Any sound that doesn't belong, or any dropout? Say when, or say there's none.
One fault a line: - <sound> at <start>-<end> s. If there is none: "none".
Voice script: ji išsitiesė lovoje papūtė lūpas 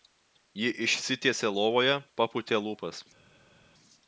none